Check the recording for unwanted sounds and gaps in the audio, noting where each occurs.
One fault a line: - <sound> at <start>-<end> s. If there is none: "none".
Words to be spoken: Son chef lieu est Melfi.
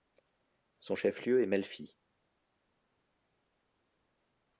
none